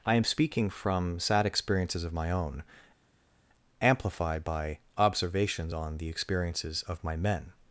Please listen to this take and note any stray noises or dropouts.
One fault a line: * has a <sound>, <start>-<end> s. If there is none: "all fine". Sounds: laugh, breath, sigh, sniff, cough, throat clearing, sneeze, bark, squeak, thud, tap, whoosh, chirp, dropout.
all fine